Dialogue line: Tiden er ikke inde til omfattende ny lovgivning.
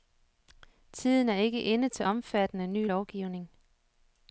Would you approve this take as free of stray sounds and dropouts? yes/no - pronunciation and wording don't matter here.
yes